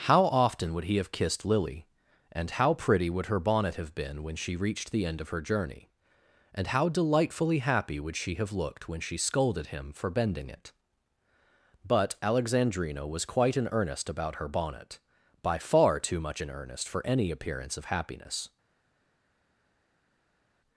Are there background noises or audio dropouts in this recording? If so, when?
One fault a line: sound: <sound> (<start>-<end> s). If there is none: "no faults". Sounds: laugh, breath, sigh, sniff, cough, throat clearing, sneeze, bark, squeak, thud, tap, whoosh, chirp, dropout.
no faults